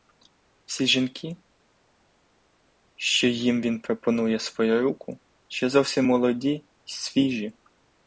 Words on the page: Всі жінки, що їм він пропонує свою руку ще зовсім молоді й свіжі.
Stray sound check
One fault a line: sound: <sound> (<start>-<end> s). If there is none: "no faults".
no faults